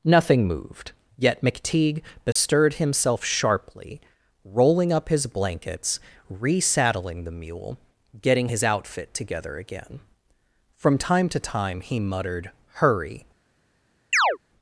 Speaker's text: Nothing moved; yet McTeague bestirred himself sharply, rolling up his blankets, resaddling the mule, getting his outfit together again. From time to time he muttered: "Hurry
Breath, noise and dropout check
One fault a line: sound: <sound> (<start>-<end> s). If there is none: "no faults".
sound: dropout (2.3-2.4 s)
sound: chirp (14.1-14.4 s)